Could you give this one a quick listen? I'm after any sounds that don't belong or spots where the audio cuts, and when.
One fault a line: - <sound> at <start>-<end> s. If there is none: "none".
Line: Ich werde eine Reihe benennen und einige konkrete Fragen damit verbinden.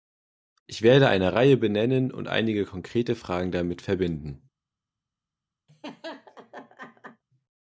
- laugh at 5.7-7.2 s